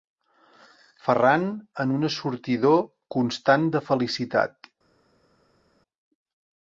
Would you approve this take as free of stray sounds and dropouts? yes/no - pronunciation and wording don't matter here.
yes